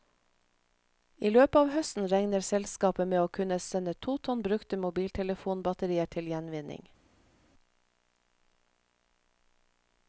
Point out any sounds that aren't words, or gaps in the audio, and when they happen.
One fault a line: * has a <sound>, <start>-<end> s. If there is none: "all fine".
all fine